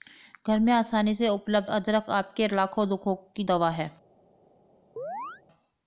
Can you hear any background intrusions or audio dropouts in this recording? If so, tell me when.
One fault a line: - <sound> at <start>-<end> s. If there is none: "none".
- chirp at 5.0-5.4 s